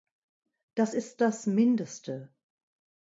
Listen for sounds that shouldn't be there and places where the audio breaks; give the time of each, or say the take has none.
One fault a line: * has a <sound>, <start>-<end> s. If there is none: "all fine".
all fine